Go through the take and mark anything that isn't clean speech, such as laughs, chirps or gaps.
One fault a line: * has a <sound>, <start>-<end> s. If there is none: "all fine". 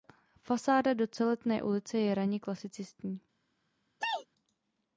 * has a sneeze, 4.0-4.3 s